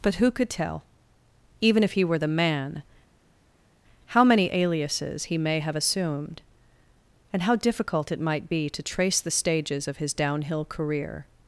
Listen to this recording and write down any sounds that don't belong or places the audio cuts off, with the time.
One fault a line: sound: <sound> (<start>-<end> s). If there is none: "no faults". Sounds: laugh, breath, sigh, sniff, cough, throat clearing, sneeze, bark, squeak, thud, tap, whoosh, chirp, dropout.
no faults